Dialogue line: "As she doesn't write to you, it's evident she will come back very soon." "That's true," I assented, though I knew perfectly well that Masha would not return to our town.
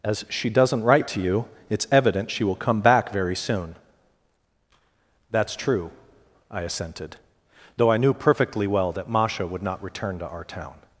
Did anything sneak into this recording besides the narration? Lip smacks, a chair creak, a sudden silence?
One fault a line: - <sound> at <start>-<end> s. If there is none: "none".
none